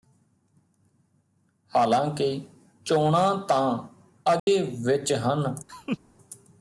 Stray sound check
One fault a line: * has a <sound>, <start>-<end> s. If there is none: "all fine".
* has a dropout, 4.4-4.5 s
* has a laugh, 5.7-6.0 s